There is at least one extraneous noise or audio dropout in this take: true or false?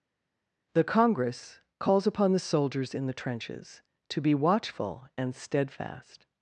false